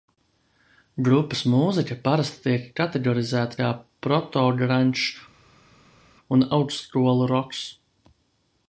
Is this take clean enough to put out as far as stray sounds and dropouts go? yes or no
yes